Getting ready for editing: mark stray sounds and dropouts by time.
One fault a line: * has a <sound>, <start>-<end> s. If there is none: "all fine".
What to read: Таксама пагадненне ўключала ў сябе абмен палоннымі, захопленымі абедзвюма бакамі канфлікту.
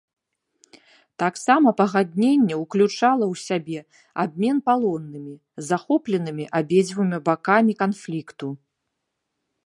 all fine